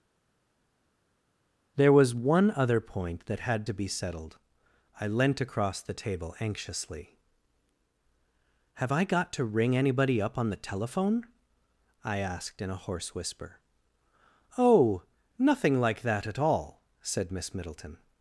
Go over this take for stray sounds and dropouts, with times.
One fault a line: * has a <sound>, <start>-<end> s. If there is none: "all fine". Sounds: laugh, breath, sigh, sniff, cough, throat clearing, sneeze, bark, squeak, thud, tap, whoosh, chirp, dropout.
all fine